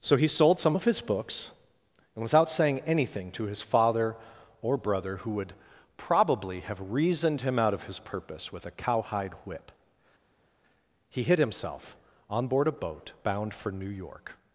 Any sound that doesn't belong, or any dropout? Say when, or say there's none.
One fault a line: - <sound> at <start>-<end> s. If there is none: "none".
none